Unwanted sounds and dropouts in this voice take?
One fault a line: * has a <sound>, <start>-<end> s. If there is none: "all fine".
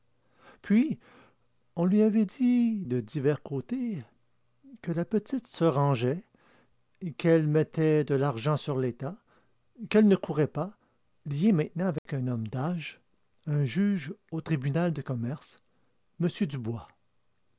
* has a dropout, 12.0-12.1 s